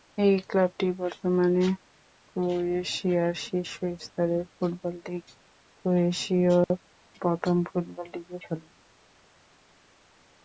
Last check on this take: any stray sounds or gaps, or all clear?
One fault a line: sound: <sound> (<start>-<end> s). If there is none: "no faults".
no faults